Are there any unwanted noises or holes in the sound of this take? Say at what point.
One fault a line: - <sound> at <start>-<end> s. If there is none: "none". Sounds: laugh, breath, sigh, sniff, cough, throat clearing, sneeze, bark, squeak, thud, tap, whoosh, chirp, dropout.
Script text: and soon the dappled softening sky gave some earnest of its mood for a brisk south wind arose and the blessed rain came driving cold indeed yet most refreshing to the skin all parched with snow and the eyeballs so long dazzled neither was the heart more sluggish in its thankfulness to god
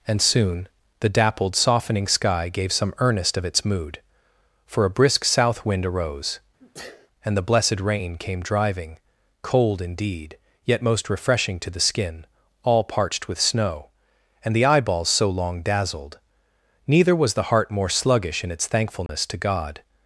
- sneeze at 6.6-7.1 s
- dropout at 19.1-19.1 s